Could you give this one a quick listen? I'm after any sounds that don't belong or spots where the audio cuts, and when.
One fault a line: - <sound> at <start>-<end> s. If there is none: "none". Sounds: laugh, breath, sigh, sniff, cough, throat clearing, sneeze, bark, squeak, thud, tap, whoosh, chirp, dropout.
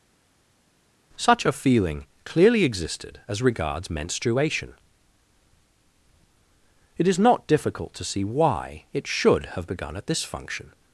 none